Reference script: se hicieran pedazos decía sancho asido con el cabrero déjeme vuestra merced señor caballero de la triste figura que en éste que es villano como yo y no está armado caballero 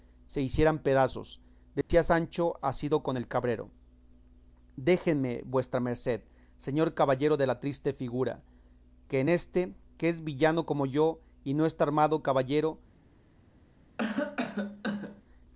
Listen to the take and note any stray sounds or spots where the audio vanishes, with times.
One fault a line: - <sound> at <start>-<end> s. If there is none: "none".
- dropout at 1.8-1.9 s
- cough at 14.0-15.2 s